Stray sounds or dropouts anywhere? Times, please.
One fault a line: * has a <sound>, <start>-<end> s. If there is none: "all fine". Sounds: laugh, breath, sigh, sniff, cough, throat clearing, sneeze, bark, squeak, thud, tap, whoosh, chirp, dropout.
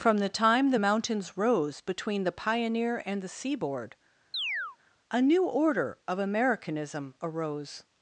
* has a chirp, 4.3-4.8 s